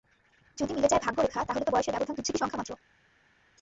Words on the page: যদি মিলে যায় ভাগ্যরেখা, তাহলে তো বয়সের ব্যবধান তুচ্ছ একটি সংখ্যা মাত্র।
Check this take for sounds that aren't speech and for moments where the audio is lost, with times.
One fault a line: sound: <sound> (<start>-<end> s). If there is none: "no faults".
no faults